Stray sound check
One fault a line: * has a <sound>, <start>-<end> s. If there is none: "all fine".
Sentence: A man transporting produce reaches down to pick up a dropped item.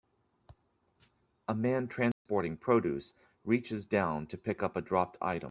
* has a dropout, 2.1-2.3 s